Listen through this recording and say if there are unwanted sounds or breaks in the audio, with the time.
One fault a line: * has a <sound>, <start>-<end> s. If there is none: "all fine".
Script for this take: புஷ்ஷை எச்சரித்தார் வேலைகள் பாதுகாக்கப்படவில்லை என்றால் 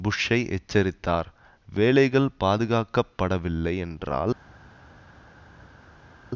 all fine